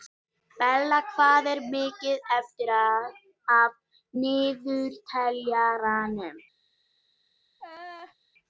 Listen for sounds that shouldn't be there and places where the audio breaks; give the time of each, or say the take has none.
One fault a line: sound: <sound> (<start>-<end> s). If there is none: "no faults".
sound: laugh (7.6-8.2 s)